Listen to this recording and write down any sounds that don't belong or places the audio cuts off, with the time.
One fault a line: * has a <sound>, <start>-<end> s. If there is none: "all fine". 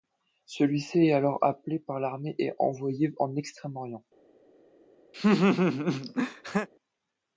* has a laugh, 5.1-6.7 s